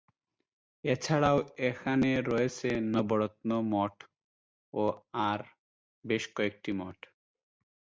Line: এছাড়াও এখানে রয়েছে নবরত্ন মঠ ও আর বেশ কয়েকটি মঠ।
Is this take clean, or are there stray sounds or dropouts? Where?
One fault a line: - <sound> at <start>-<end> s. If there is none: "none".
none